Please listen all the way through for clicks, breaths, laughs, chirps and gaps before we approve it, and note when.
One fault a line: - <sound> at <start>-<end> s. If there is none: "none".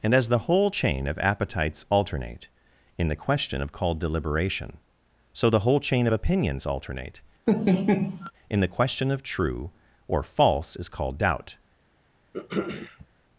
- laugh at 7.5-8.3 s
- throat clearing at 12.3-13.1 s